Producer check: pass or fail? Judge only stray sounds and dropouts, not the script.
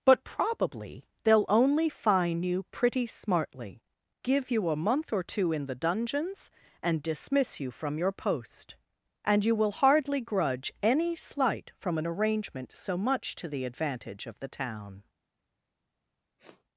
fail